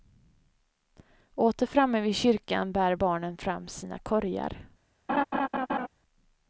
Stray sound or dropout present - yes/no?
yes